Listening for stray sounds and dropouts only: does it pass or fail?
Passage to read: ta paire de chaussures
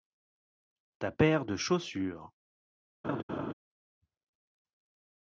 fail